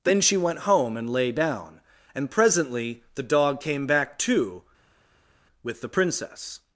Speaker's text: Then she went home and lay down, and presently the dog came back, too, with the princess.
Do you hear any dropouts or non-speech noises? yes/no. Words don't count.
no